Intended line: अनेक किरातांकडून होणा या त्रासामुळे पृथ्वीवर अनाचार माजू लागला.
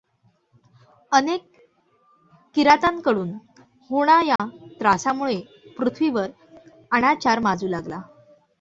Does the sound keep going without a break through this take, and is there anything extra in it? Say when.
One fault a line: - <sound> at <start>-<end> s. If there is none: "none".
- dropout at 4.4-4.4 s